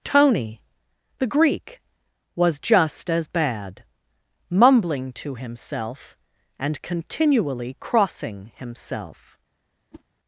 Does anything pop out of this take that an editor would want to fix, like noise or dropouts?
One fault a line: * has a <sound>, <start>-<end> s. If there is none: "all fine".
* has a whoosh, 9.9-10.0 s